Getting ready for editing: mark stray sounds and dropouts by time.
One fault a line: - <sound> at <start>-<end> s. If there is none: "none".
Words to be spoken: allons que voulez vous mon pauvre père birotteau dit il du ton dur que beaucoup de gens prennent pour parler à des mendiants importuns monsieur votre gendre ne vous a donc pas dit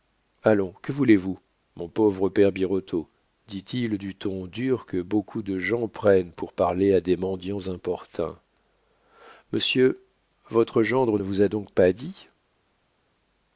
none